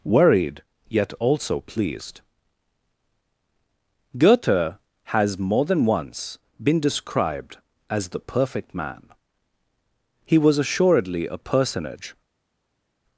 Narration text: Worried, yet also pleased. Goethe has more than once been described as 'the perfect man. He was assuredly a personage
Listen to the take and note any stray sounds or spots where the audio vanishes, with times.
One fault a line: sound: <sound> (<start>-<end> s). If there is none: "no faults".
no faults